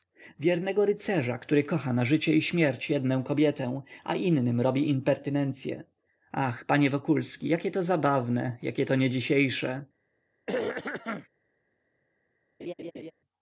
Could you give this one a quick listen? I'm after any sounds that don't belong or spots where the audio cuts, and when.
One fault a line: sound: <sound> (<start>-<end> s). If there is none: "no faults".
sound: throat clearing (10.5-11.3 s)
sound: laugh (12.6-13.1 s)